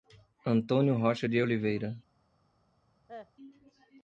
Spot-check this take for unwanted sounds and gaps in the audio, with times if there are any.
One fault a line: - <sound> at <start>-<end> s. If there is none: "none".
- cough at 3.1-3.3 s